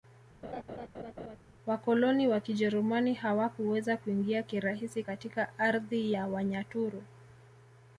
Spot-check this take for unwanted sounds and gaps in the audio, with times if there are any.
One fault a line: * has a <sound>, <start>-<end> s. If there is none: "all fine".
* has a laugh, 0.4-1.4 s